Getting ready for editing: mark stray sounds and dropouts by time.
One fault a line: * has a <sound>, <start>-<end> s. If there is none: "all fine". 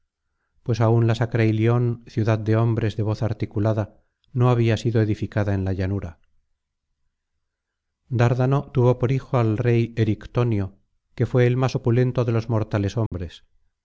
* has a dropout, 13.1-13.1 s